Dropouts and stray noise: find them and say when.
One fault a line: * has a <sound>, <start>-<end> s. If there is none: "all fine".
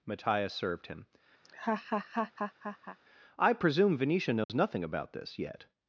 * has a laugh, 1.4-3.0 s
* has a dropout, 4.4-4.5 s